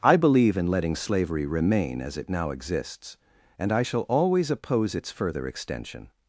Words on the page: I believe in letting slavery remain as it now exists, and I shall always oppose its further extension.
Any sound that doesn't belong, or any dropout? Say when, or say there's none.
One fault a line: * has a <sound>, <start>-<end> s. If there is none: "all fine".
all fine